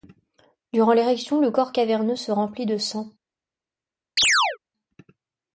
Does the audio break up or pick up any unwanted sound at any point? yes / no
yes